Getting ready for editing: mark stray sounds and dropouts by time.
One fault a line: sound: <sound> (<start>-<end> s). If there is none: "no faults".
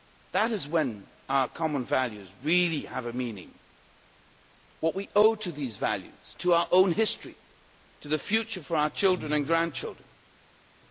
no faults